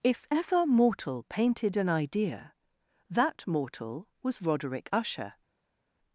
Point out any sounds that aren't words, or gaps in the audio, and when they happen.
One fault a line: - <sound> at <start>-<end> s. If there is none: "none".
none